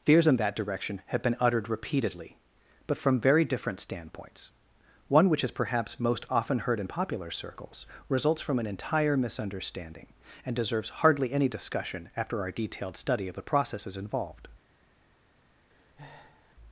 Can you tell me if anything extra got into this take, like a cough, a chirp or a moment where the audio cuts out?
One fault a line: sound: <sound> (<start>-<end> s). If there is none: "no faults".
sound: breath (15.7-16.5 s)